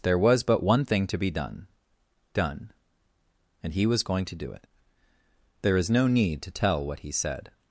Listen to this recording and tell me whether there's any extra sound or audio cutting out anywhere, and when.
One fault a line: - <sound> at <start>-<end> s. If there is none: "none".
none